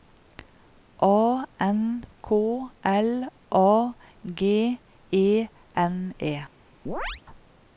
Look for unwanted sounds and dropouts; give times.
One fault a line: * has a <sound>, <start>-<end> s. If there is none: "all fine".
* has a chirp, 6.9-7.2 s